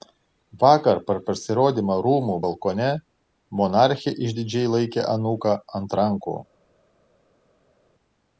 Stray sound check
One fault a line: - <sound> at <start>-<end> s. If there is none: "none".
none